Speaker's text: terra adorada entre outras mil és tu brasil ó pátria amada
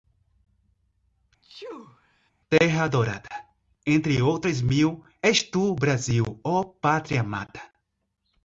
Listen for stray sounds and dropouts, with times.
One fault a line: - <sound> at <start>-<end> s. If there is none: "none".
- sneeze at 1.4-2.3 s